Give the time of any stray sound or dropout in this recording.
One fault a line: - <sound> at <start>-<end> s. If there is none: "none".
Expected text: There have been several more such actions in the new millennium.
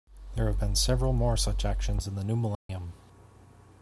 - dropout at 2.5-2.7 s